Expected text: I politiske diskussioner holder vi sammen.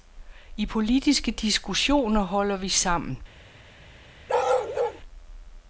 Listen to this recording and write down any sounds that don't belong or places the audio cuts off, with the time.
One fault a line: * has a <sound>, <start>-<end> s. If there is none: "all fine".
* has a bark, 4.3-5.0 s